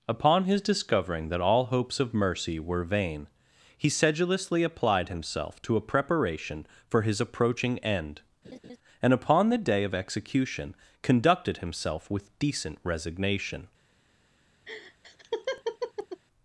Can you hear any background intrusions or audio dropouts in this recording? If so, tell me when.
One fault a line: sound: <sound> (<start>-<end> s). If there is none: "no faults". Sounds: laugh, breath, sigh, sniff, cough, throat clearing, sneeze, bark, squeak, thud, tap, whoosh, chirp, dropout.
sound: laugh (8.4-8.8 s)
sound: laugh (14.7-16.2 s)